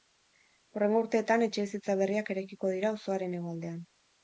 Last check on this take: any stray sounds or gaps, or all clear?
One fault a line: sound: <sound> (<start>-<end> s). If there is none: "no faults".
no faults